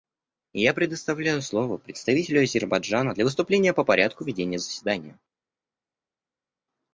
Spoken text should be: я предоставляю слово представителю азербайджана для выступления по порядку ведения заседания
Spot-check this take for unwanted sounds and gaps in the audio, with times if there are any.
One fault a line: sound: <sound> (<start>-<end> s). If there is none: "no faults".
no faults